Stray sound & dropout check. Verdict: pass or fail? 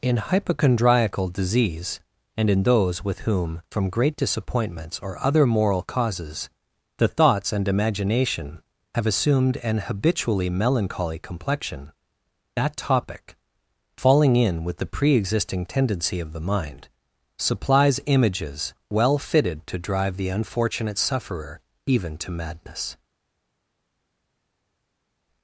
pass